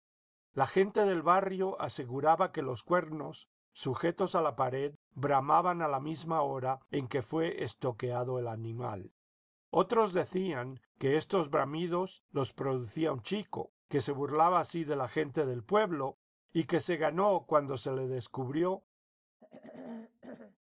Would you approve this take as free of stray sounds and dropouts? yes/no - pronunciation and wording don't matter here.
no